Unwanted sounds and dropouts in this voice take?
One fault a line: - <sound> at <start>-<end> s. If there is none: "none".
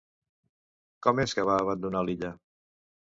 none